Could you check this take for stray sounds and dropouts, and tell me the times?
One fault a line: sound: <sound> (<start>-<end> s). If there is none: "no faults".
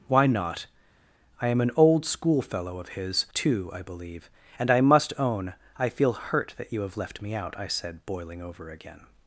no faults